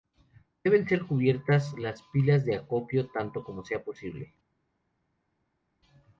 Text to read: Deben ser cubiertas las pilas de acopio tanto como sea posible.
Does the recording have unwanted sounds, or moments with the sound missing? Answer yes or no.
no